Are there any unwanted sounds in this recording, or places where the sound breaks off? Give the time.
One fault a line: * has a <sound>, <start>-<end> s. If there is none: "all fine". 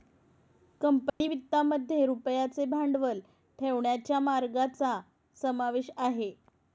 * has a dropout, 1.1-1.2 s